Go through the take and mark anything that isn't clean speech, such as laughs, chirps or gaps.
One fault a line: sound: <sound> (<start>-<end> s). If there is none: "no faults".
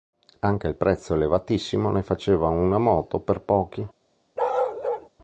sound: bark (4.4-5.1 s)